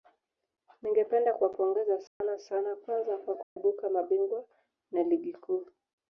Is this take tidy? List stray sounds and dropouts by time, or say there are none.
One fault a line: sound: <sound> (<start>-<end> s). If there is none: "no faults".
sound: dropout (2.1-2.2 s)
sound: dropout (3.4-3.6 s)